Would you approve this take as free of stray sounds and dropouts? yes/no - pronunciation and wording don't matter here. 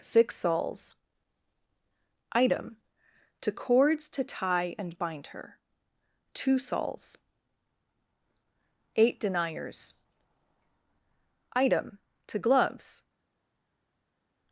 yes